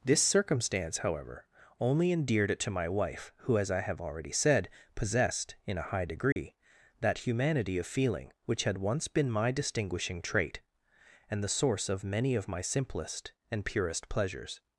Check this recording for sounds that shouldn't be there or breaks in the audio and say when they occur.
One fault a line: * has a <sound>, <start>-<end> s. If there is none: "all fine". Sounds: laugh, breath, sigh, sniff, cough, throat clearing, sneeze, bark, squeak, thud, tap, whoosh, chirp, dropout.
* has a dropout, 6.3-6.4 s